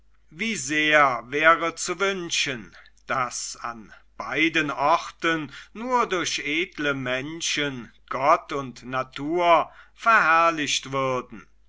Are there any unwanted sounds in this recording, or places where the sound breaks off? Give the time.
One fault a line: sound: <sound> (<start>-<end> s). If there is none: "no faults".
no faults